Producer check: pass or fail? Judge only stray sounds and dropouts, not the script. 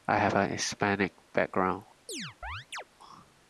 fail